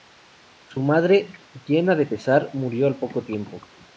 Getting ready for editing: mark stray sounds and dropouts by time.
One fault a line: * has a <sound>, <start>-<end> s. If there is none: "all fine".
all fine